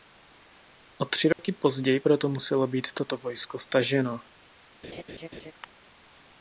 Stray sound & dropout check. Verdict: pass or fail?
fail